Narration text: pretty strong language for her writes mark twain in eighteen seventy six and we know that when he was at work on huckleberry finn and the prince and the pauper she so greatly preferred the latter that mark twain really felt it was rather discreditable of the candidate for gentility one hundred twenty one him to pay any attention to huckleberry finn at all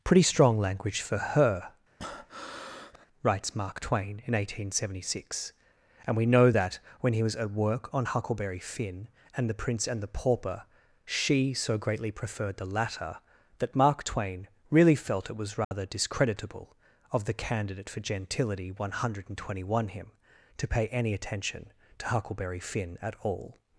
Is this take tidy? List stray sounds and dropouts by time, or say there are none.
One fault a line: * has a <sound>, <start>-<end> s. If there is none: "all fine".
* has a breath, 2.0-3.1 s
* has a dropout, 15.6-15.7 s